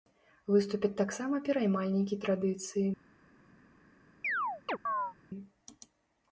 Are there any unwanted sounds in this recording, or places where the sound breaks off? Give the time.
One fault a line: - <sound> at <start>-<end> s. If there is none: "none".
- chirp at 4.2-5.1 s